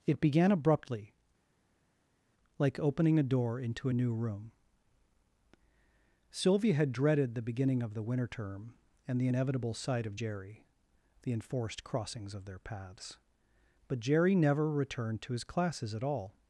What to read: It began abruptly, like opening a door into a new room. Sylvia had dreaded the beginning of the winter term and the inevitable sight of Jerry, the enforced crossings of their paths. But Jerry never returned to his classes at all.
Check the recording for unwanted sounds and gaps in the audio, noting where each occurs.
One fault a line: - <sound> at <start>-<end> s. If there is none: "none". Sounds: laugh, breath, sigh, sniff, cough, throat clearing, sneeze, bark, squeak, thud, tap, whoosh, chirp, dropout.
none